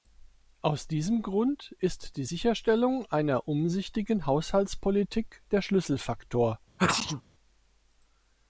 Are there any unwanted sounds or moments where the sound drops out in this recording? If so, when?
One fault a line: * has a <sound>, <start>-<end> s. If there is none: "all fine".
* has a sneeze, 6.8-7.2 s